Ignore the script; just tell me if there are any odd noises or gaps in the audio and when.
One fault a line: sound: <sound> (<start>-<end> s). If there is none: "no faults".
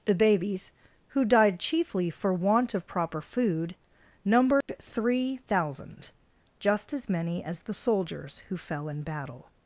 sound: dropout (4.6-4.7 s)